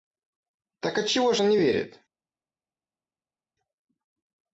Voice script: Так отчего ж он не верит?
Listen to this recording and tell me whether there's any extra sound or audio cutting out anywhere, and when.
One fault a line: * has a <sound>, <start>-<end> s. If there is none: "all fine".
all fine